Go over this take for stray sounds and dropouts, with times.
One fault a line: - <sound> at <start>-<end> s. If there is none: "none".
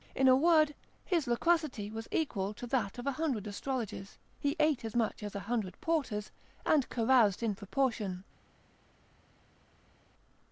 none